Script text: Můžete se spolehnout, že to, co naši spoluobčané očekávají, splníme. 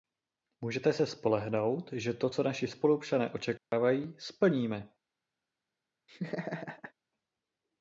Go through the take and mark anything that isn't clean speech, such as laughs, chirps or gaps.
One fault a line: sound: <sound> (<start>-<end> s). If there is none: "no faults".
sound: dropout (3.6-3.7 s)
sound: laugh (6.1-6.9 s)